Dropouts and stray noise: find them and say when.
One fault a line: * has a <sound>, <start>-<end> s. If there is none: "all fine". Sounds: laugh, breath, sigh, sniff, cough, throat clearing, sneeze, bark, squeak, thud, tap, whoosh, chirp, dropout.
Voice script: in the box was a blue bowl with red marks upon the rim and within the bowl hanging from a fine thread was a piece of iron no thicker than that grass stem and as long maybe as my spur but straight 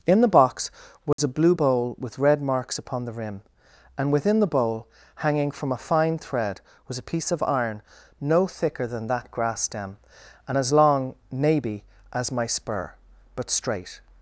* has a dropout, 1.1-1.2 s